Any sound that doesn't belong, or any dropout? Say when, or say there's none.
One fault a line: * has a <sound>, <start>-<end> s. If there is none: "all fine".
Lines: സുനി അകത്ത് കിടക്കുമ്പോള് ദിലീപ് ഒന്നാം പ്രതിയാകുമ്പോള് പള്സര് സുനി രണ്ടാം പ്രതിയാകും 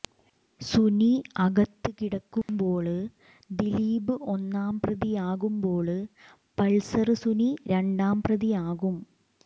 * has a dropout, 2.4-2.5 s